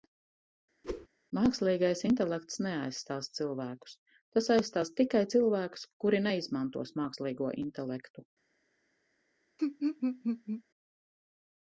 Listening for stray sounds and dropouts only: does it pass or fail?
fail